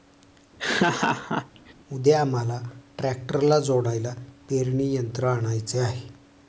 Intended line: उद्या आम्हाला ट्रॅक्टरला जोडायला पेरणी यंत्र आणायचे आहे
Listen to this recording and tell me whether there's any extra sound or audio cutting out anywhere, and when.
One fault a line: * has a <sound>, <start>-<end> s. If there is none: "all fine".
* has a laugh, 0.6-1.7 s